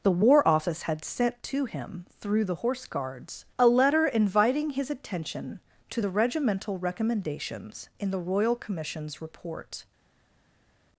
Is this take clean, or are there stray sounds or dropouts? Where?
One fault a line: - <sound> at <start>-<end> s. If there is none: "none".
none